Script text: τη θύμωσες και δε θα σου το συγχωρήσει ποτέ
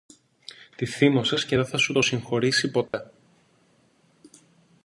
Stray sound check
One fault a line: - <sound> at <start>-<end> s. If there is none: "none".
- dropout at 2.9-2.9 s